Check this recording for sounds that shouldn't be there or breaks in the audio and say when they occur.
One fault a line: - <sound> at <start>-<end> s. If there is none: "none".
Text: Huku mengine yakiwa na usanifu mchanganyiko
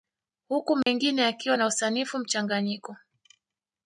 - dropout at 0.8-0.9 s